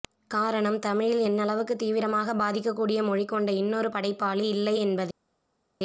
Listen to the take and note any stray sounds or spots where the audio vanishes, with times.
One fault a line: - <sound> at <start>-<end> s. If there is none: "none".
none